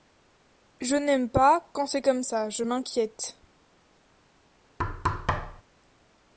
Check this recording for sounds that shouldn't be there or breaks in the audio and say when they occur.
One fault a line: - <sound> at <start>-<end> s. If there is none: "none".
- thud at 4.8-5.6 s